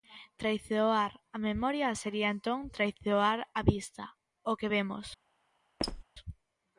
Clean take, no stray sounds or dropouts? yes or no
no